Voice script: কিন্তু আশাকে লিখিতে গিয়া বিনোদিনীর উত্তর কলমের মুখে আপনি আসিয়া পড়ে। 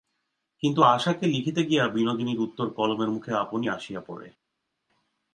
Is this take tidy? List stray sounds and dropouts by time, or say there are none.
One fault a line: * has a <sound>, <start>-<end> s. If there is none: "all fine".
all fine